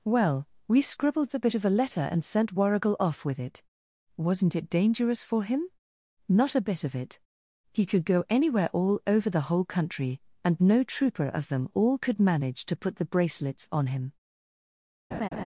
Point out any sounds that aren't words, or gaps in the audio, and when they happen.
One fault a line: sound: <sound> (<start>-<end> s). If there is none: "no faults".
sound: laugh (15.1-15.5 s)